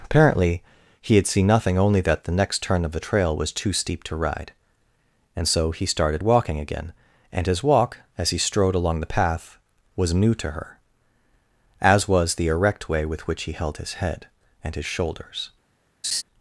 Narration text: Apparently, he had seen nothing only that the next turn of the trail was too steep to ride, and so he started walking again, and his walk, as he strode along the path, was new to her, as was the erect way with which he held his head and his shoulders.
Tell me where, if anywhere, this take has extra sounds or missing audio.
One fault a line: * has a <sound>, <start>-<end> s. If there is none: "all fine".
* has a laugh, 16.0-16.2 s